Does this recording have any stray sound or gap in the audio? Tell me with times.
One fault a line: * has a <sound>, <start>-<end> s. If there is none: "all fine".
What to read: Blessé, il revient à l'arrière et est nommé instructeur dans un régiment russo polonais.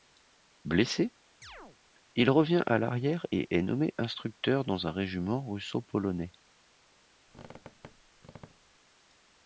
* has a chirp, 1.4-1.8 s
* has a squeak, 7.3-8.8 s